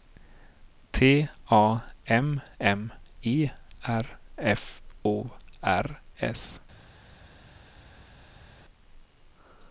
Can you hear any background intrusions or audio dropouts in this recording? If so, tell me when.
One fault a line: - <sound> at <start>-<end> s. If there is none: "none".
none